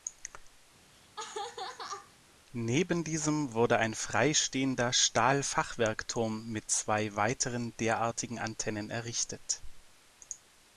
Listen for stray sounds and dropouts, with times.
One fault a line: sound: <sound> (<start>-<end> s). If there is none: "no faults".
sound: laugh (0.9-2.2 s)